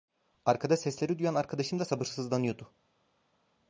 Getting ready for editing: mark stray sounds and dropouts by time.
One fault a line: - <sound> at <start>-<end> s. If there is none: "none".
none